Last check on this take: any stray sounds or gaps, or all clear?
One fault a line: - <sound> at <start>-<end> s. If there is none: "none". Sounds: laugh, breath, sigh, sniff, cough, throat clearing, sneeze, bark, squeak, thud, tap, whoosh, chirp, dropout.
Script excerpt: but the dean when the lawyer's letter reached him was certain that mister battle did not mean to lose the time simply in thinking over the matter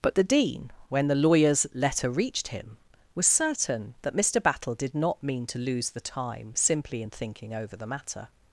none